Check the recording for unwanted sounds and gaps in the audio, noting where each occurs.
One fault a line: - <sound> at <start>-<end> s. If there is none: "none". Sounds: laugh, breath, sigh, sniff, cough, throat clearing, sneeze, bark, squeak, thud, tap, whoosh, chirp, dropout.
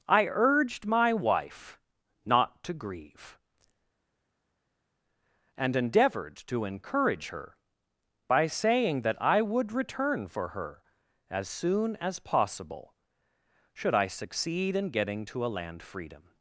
none